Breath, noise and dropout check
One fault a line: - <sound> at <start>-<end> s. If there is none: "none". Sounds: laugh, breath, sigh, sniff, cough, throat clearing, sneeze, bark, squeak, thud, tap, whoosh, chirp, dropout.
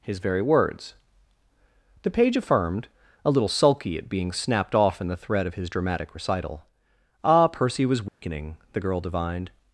- dropout at 8.1-8.2 s